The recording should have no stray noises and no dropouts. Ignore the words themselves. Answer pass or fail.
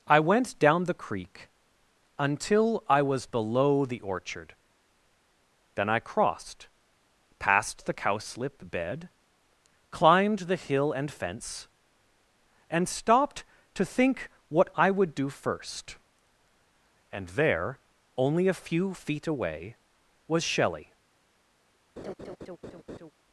fail